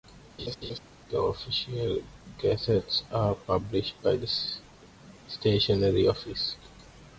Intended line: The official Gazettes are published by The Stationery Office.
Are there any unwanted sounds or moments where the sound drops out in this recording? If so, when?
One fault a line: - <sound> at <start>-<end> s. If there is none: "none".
- laugh at 0.4-0.8 s